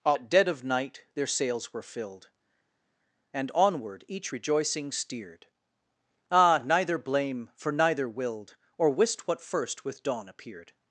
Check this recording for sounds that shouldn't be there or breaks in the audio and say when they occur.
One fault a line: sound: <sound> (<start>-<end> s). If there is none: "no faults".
no faults